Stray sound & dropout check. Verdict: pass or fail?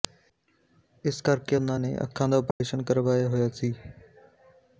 fail